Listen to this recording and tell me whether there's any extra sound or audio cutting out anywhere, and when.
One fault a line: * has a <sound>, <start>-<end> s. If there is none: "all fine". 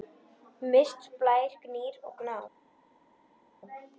all fine